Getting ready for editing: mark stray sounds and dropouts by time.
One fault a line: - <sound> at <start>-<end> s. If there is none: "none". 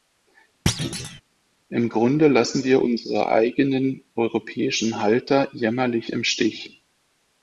- thud at 0.7-1.2 s